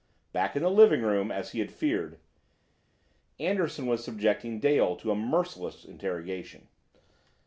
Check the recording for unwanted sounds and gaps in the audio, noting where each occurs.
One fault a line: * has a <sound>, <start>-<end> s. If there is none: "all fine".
all fine